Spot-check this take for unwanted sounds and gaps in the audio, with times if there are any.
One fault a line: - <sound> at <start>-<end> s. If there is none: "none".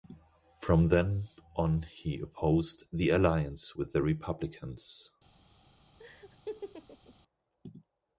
- laugh at 6.0-7.1 s